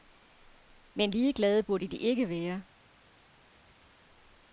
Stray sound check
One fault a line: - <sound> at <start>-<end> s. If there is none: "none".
none